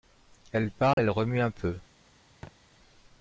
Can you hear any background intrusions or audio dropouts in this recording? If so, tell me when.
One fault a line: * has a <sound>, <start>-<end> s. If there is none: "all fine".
* has a dropout, 0.9-1.0 s
* has a thud, 2.4-2.6 s